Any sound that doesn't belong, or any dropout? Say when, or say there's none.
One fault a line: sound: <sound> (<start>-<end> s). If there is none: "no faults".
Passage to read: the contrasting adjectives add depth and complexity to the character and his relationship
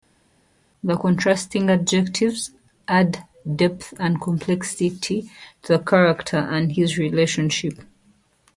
no faults